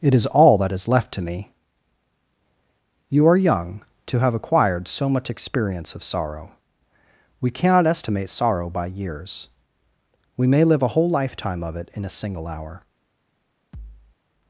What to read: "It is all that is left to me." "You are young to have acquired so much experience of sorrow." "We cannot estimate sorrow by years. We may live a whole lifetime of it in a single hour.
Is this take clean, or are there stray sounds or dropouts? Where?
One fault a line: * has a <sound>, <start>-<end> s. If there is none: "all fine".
* has a thud, 13.7-14.2 s